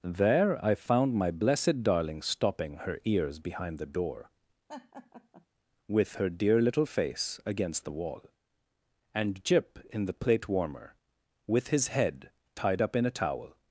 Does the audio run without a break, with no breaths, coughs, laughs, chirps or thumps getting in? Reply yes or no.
no